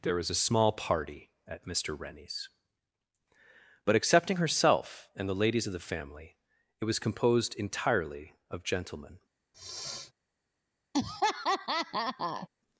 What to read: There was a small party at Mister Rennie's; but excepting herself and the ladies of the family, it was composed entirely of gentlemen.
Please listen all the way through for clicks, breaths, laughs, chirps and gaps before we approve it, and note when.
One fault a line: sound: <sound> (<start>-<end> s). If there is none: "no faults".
sound: sniff (9.5-10.1 s)
sound: laugh (10.9-12.5 s)